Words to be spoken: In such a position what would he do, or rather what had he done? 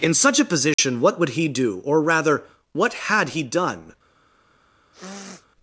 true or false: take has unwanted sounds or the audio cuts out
true